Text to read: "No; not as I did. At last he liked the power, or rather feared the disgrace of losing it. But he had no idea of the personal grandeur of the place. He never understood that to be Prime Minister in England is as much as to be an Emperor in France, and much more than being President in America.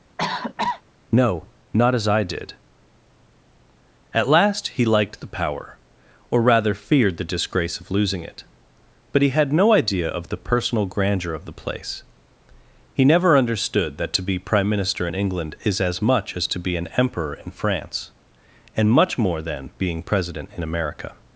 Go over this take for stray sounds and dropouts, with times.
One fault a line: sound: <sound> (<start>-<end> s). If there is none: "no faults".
sound: cough (0.2-0.8 s)